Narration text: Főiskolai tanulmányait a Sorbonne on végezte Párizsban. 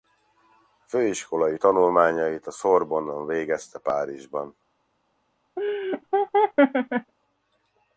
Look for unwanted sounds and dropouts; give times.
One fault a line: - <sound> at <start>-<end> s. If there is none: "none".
- laugh at 5.6-7.1 s